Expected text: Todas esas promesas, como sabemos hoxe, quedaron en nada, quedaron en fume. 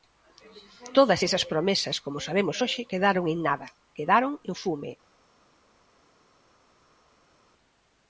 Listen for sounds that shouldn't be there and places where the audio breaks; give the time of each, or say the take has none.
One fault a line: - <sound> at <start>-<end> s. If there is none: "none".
none